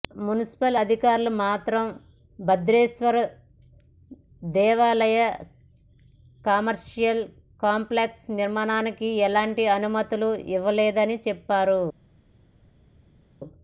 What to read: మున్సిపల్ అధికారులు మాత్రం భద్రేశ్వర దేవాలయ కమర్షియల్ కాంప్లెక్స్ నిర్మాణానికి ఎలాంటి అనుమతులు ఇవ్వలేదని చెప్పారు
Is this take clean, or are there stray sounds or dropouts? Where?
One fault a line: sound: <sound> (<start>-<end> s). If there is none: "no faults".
no faults